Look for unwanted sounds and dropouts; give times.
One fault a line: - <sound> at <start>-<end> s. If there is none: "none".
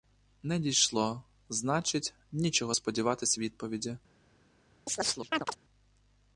- chirp at 4.9-5.6 s